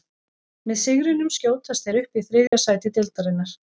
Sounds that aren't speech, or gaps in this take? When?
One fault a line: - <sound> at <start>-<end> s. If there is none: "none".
- dropout at 2.5-2.5 s